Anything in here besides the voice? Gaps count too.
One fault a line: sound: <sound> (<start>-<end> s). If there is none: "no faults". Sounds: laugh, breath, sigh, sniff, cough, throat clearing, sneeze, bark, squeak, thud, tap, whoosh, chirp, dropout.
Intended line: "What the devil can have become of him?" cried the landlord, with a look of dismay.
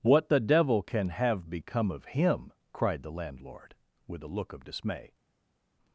no faults